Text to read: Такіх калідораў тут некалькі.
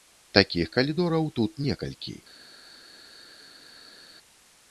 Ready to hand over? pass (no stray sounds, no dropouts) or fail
pass